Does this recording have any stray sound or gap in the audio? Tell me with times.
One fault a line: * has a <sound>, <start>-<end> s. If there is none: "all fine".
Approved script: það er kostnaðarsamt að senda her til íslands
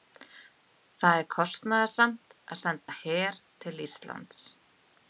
* has a dropout, 2.8-2.9 s